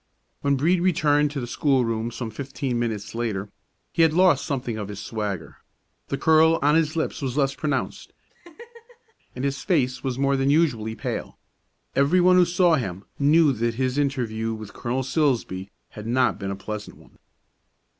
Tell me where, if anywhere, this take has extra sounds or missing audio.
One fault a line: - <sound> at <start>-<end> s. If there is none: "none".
- laugh at 8.3-9.1 s